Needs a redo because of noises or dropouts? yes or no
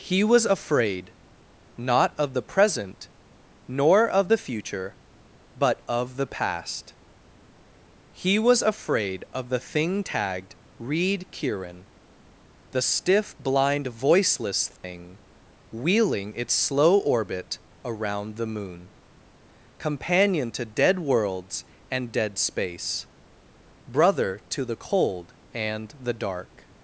yes